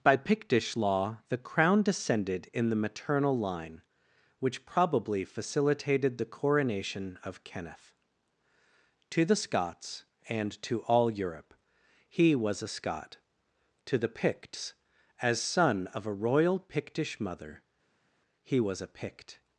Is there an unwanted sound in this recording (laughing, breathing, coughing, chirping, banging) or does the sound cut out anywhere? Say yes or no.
no